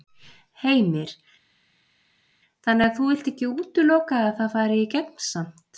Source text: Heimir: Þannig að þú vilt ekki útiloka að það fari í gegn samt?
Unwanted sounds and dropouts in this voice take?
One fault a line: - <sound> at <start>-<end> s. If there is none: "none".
none